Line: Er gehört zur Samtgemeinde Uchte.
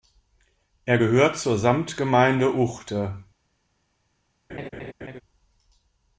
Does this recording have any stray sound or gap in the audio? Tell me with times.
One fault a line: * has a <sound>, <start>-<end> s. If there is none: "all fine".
* has a laugh, 4.5-5.2 s